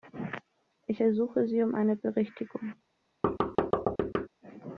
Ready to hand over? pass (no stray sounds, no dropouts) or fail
fail